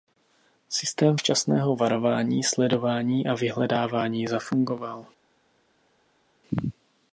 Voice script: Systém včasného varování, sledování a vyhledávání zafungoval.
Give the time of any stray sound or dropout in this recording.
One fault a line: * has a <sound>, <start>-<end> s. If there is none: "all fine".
all fine